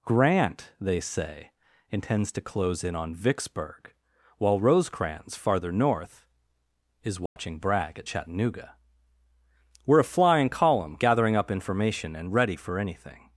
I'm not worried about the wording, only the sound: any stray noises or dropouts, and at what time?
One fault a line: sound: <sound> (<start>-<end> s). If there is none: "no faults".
sound: dropout (7.3-7.4 s)